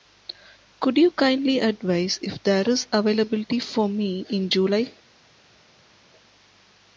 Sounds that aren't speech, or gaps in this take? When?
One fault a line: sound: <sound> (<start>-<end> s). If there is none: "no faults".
no faults